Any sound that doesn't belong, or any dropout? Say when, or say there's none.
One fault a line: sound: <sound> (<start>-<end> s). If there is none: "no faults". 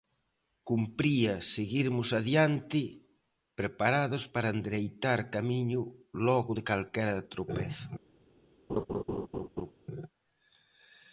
sound: laugh (8.7-9.7 s)